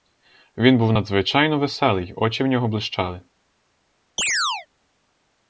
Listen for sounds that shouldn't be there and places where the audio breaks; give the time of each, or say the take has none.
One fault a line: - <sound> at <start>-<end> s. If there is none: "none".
- chirp at 4.2-4.7 s